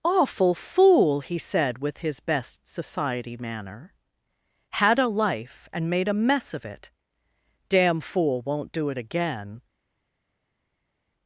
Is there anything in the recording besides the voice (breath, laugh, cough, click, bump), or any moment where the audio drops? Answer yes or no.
no